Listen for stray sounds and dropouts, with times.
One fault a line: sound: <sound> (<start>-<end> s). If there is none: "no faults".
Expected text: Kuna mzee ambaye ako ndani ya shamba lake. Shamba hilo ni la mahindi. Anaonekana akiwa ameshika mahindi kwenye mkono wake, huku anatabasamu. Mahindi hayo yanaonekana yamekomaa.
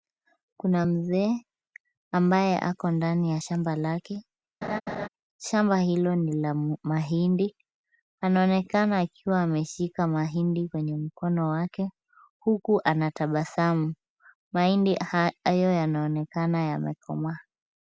sound: laugh (4.6-5.1 s)